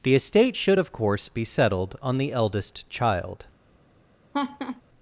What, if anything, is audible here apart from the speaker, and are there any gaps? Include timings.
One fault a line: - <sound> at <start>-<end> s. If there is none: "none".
- laugh at 4.3-4.8 s